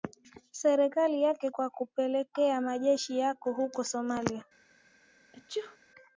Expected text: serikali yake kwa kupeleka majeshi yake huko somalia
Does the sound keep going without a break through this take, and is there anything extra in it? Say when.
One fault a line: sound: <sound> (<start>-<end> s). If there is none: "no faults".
sound: sneeze (5.3-5.8 s)